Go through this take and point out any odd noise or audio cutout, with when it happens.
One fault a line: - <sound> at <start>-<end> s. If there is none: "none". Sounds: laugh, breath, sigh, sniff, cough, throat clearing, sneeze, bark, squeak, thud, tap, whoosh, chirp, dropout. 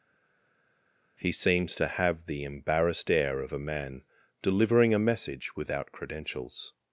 none